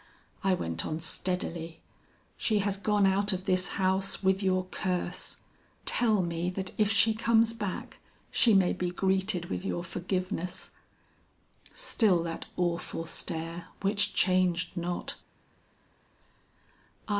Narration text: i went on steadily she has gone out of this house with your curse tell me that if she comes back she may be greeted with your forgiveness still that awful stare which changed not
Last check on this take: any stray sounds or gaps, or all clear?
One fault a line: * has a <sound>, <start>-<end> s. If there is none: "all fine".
all fine